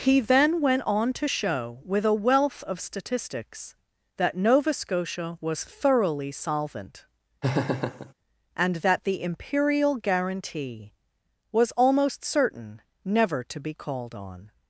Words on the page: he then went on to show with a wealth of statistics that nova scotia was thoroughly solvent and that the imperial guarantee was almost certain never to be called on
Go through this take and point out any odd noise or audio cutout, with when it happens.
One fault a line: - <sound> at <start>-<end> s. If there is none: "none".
- laugh at 7.4-8.1 s